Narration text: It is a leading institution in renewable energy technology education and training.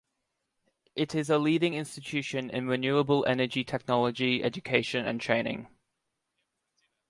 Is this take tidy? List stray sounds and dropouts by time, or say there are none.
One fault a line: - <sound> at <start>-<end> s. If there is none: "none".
none